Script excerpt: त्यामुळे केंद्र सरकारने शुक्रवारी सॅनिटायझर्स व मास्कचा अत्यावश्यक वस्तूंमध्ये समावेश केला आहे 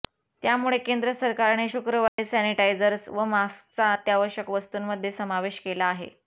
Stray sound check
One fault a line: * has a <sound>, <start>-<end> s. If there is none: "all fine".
* has a dropout, 2.1-2.2 s